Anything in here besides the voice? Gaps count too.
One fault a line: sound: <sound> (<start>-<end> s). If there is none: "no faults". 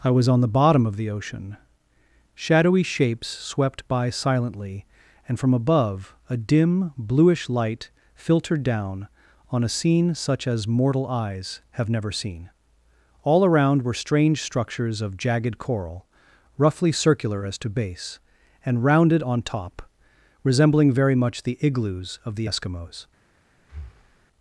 sound: breath (23.6-24.3 s)